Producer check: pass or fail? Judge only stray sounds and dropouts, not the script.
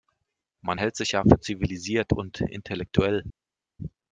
pass